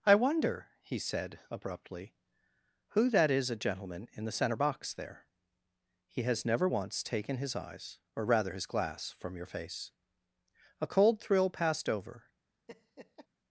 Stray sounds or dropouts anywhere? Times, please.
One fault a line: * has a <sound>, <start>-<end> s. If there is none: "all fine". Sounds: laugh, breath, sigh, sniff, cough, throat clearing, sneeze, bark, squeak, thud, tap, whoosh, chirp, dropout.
* has a laugh, 12.7-13.3 s